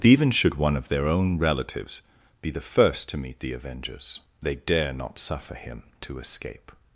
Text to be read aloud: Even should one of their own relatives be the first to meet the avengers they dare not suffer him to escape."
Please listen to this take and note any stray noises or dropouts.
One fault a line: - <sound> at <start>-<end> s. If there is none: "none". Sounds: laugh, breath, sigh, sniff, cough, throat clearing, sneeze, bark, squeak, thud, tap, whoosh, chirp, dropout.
none